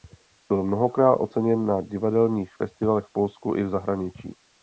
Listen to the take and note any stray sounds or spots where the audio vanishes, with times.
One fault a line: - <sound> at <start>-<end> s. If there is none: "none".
none